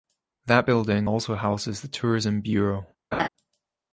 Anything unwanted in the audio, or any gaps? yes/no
yes